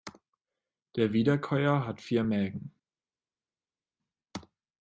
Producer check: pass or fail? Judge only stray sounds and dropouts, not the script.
pass